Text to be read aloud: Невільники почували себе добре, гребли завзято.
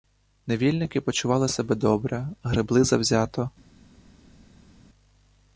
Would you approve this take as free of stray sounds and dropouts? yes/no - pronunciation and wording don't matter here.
yes